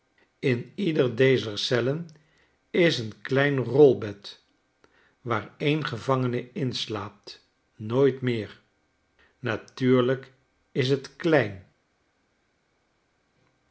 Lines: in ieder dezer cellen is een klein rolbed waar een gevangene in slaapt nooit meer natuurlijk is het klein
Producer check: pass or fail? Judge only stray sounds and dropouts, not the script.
pass